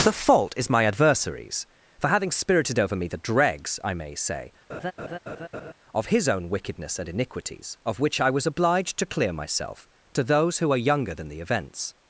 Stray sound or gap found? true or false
true